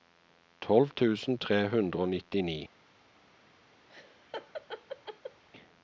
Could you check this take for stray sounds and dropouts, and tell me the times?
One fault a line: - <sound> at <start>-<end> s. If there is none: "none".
- laugh at 3.9-5.4 s